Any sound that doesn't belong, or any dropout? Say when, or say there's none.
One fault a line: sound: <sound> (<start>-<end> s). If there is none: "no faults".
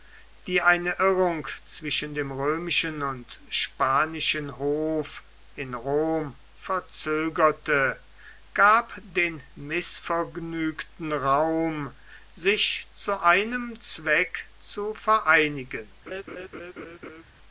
sound: laugh (16.1-17.2 s)